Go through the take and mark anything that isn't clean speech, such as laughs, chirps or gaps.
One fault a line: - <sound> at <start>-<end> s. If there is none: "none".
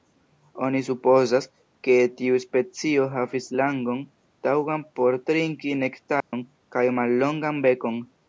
- dropout at 6.2-6.3 s